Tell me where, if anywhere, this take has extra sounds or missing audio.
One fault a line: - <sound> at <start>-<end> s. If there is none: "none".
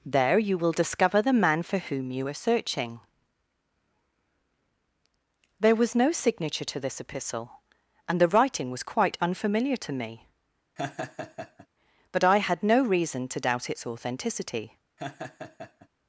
- laugh at 10.8-11.7 s
- laugh at 15.0-15.9 s